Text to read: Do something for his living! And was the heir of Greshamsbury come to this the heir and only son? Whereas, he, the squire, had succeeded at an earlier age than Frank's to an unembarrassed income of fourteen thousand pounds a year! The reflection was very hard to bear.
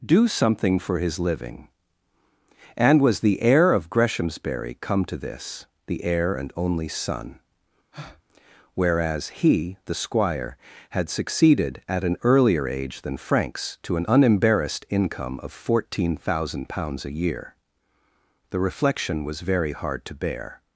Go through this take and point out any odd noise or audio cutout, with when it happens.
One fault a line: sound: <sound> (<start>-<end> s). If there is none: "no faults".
sound: breath (7.9-8.2 s)